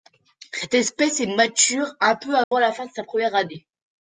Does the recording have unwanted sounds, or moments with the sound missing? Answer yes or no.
yes